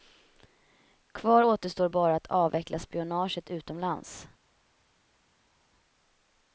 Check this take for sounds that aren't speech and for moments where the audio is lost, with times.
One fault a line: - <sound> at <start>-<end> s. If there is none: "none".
none